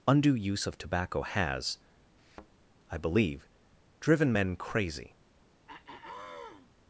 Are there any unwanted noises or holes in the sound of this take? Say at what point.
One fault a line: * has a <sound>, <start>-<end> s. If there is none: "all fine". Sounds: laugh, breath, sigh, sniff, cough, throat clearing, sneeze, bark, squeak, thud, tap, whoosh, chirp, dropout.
* has a thud, 2.2-2.5 s
* has a throat clearing, 5.7-6.7 s